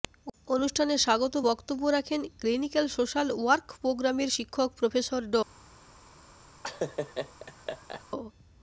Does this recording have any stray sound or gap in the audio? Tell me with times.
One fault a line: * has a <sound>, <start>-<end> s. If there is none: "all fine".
* has a laugh, 6.6-8.0 s